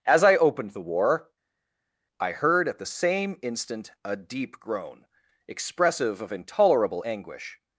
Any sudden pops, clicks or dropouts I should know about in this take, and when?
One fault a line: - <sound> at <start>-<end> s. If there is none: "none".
none